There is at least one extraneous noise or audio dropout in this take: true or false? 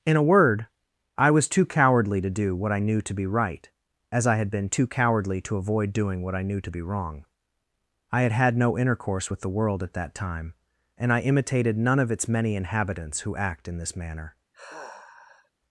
true